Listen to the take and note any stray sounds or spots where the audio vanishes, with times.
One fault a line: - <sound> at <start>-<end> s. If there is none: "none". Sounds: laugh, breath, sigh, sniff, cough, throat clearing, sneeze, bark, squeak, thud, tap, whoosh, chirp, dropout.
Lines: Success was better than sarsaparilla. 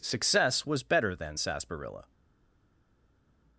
none